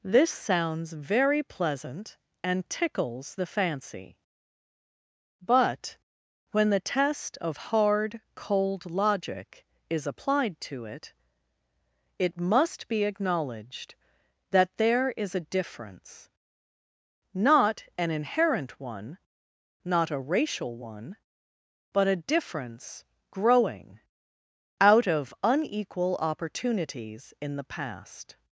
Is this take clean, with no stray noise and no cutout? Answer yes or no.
yes